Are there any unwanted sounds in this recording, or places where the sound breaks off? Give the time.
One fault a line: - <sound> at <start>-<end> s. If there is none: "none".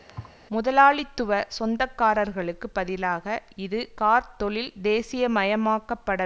- thud at 0.1-0.4 s